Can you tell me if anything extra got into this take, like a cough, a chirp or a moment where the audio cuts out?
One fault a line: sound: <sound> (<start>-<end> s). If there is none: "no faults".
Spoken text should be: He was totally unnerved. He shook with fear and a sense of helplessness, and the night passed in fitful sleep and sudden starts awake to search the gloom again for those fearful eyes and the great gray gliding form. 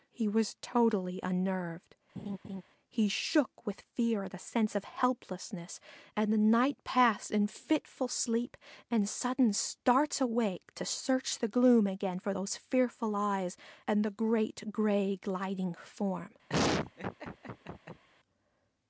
sound: laugh (2.2-2.6 s)
sound: laugh (16.5-18.0 s)